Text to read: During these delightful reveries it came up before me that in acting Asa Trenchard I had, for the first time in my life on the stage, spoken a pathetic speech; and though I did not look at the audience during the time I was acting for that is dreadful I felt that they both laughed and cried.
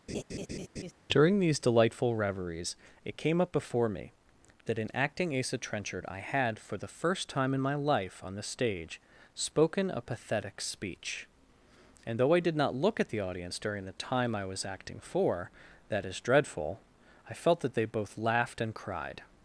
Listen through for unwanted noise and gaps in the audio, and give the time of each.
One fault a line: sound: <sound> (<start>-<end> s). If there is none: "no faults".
sound: laugh (0.1-0.9 s)